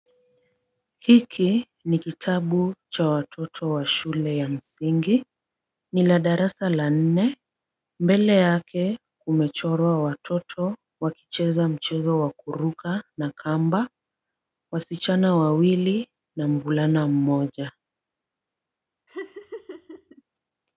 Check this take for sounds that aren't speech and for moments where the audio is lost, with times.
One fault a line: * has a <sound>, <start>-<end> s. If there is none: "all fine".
* has a laugh, 19.1-20.2 s